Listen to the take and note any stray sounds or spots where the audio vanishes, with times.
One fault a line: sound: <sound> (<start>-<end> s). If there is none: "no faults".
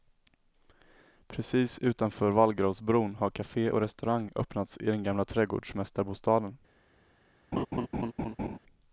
sound: laugh (7.5-8.6 s)